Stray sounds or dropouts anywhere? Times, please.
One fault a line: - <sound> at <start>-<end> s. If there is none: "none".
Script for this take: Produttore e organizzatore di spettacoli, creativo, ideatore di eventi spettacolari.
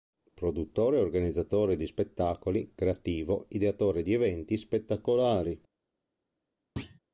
- thud at 6.8-7.0 s